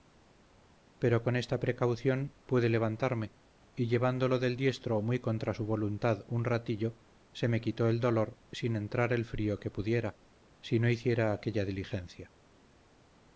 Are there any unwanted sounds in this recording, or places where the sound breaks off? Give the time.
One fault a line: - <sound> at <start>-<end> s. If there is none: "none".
none